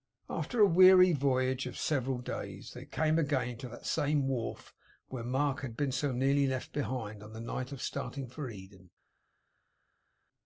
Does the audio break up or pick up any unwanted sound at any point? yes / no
no